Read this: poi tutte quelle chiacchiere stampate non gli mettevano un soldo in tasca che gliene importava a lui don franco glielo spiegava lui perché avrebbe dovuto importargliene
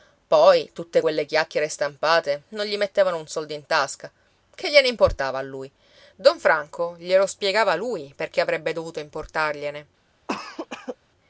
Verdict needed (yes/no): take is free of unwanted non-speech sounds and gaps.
no